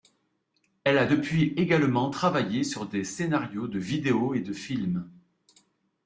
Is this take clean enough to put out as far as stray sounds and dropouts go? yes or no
yes